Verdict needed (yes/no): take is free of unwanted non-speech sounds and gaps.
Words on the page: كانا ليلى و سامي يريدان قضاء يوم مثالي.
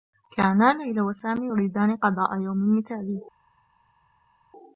yes